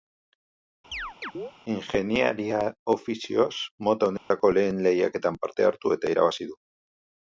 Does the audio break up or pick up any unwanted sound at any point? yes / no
yes